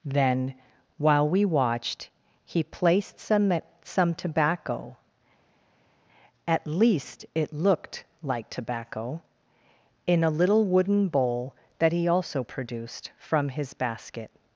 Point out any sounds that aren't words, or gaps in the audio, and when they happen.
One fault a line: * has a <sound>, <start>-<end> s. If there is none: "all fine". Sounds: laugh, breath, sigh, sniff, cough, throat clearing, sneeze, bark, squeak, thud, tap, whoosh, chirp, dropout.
all fine